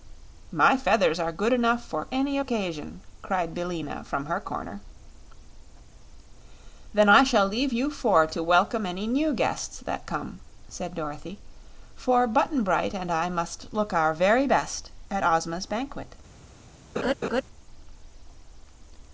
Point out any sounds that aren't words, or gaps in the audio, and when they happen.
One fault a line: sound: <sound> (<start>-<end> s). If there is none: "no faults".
sound: laugh (17.0-17.4 s)